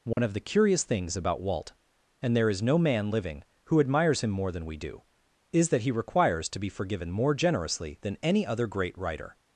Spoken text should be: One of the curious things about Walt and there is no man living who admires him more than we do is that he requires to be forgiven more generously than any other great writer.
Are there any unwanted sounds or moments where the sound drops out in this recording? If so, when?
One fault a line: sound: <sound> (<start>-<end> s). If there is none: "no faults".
sound: dropout (0.1-0.2 s)